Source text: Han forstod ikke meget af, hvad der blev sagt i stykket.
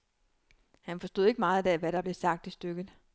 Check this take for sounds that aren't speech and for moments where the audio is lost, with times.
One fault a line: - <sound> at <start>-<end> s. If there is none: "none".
none